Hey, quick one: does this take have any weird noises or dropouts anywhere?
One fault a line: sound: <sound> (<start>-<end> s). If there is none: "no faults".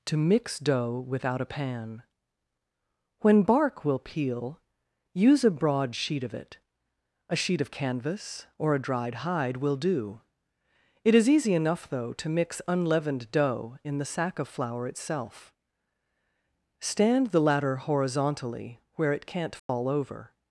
sound: dropout (19.6-19.7 s)